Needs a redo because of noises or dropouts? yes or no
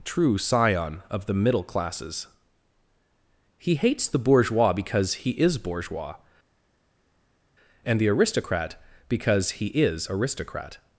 no